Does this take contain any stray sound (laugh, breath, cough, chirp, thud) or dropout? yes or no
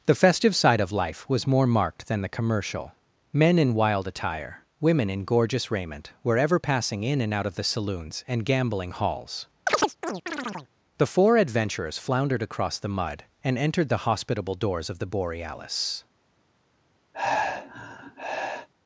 yes